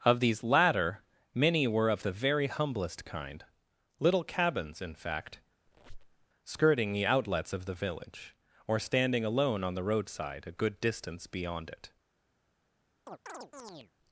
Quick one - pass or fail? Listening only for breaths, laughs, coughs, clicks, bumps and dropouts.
fail